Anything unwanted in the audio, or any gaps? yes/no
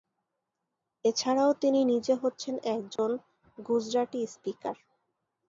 yes